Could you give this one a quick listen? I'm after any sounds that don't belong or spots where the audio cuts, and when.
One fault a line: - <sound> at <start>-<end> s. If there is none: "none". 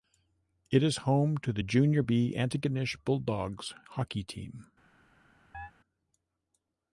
- chirp at 5.5-5.7 s